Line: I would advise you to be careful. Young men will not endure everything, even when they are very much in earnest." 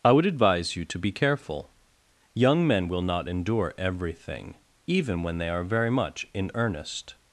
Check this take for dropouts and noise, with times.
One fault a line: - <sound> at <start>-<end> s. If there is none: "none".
none